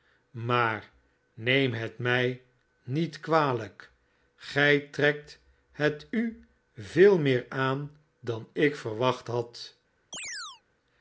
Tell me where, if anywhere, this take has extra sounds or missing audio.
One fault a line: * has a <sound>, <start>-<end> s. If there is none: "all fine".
* has a chirp, 10.1-10.6 s